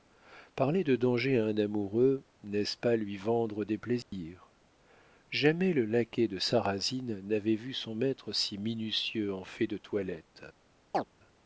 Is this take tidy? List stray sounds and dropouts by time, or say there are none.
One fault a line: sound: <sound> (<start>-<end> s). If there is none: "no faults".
sound: dropout (4.0-4.1 s)
sound: chirp (10.9-11.0 s)